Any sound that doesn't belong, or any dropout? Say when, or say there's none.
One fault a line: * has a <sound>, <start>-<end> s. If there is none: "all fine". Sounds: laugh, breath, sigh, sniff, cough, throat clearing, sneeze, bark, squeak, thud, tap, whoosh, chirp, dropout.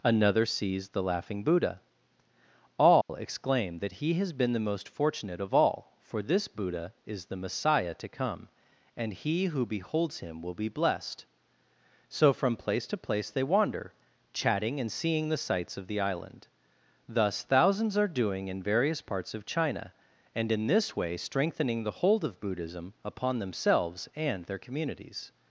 * has a dropout, 3.0-3.1 s